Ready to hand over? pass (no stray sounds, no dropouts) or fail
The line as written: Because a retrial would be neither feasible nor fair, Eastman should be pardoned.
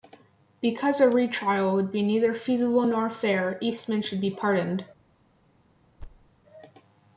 fail